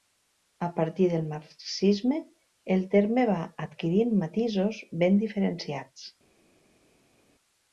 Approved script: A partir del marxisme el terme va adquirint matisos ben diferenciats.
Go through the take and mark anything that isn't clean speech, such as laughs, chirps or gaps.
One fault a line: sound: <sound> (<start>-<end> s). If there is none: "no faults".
no faults